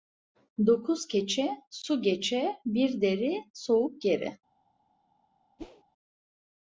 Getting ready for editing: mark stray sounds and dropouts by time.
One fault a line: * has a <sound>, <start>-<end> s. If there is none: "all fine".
* has a whoosh, 5.6-5.8 s